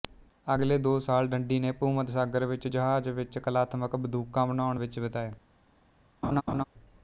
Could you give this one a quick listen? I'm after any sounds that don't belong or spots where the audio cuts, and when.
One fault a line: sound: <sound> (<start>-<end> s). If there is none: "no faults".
sound: laugh (6.2-6.6 s)